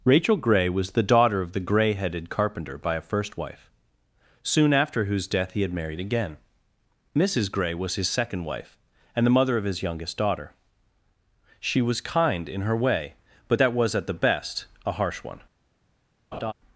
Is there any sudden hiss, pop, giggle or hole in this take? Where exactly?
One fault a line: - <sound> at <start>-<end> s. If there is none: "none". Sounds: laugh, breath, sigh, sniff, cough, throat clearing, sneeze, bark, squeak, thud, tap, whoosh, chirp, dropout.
- laugh at 16.3-16.5 s